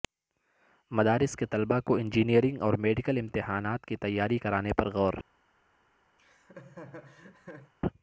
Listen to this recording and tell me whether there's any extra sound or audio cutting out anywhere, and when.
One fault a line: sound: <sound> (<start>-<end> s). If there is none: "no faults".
sound: laugh (6.2-7.7 s)